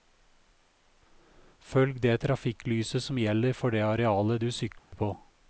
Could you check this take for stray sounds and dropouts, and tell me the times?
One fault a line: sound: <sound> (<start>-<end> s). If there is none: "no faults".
sound: dropout (4.8-4.9 s)